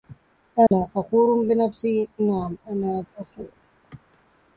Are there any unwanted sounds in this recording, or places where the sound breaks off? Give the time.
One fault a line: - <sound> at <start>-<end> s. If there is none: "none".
- dropout at 0.7-0.7 s